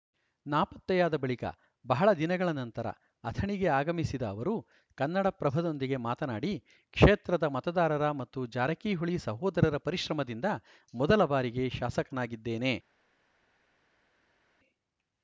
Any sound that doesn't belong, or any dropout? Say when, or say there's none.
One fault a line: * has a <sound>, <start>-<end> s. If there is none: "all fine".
all fine